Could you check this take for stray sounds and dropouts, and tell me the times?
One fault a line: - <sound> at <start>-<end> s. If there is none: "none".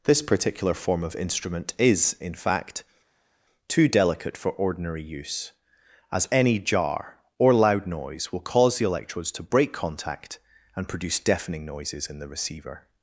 none